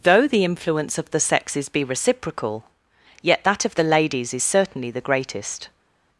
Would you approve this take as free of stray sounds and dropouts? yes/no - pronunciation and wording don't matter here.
yes